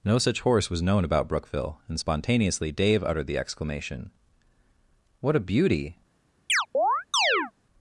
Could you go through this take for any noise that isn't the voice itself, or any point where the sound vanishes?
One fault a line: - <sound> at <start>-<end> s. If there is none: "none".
- chirp at 6.5-7.5 s